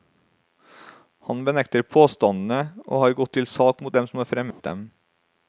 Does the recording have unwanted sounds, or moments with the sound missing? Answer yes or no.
yes